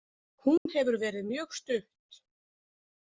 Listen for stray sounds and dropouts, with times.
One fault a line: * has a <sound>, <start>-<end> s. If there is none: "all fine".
* has a dropout, 0.6-0.7 s